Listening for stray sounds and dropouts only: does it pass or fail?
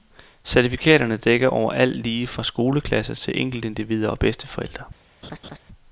fail